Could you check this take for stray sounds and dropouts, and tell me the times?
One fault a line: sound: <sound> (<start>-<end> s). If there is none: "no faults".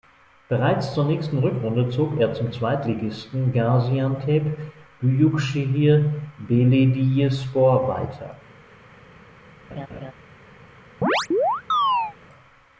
sound: laugh (9.7-10.1 s)
sound: chirp (11.0-12.1 s)